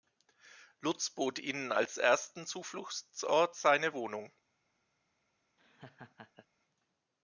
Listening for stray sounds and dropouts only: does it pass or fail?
fail